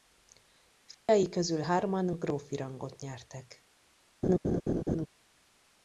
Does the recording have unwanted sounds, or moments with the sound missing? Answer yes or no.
yes